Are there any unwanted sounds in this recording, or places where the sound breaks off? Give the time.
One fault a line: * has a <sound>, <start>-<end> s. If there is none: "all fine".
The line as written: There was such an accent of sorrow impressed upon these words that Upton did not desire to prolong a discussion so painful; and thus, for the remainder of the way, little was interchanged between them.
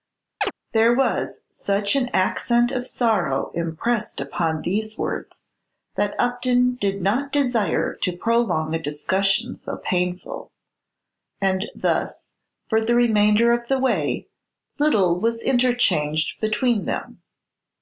* has a chirp, 0.4-0.5 s